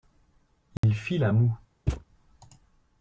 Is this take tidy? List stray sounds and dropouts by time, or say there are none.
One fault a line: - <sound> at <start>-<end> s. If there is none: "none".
- dropout at 0.8-0.8 s
- thud at 1.9-2.0 s